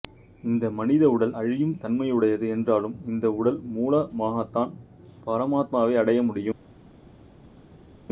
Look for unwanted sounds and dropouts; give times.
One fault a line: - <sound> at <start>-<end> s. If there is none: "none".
none